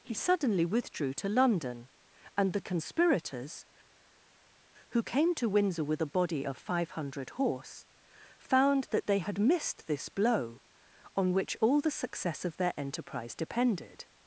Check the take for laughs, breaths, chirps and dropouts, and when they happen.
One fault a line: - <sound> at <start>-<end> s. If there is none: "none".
none